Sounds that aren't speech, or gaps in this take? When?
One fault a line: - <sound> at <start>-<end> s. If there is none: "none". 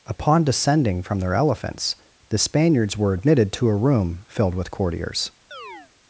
- chirp at 5.5-5.9 s